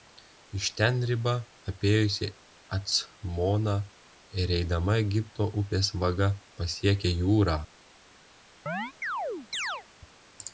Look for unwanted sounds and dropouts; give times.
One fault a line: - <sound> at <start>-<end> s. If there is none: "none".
- chirp at 8.7-9.8 s